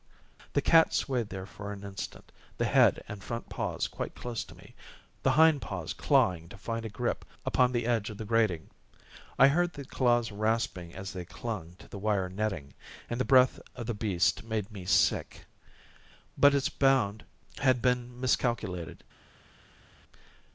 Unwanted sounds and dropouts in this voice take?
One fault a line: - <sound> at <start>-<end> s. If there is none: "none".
none